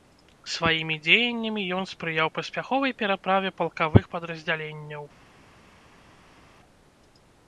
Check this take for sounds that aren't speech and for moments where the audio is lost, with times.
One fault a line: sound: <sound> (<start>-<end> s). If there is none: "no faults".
no faults